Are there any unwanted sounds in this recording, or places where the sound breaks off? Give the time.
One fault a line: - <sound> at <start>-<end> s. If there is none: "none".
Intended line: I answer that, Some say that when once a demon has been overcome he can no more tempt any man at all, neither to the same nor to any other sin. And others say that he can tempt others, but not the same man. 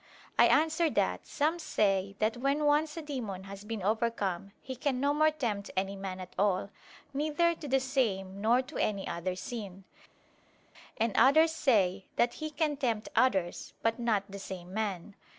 none